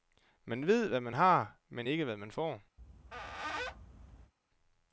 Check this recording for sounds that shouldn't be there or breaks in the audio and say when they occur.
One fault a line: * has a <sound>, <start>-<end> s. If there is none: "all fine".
* has a squeak, 2.8-4.3 s